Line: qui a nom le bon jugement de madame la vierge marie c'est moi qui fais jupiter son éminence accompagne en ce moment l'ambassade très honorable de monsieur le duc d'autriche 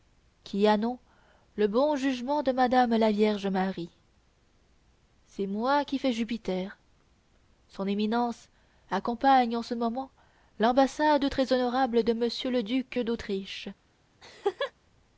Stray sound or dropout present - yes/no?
yes